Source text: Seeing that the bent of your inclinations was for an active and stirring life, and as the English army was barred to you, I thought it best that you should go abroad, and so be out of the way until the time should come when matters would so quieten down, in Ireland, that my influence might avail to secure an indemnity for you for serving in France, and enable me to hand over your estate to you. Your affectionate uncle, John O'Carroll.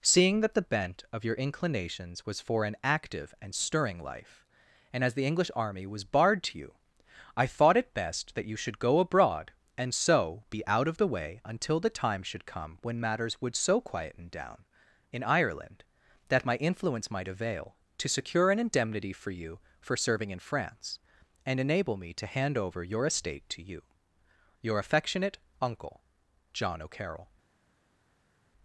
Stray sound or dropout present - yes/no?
no